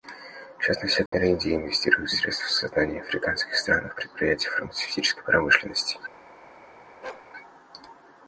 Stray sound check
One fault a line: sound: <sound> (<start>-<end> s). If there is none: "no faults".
sound: dropout (1.1-1.1 s)
sound: bark (7.0-7.3 s)